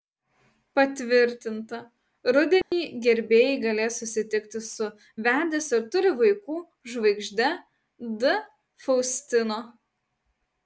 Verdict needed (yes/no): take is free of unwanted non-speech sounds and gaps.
no